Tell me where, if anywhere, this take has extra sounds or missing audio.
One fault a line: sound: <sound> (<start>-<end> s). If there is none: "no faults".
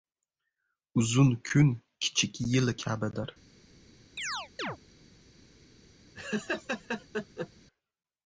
sound: chirp (4.2-4.8 s)
sound: laugh (6.1-7.5 s)